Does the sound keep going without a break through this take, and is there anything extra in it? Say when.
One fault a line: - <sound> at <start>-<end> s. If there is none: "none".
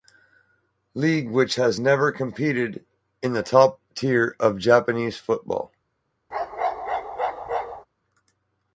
- bark at 6.3-7.9 s